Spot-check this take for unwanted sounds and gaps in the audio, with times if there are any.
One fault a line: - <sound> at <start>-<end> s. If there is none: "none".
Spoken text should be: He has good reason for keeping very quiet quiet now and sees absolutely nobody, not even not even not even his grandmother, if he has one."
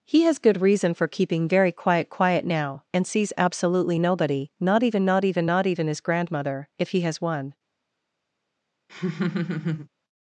- laugh at 8.9-9.9 s